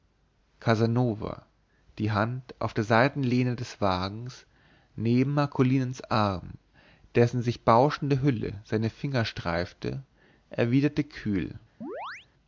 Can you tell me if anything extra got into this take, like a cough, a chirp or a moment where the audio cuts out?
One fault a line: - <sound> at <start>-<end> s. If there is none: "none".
- chirp at 11.8-12.3 s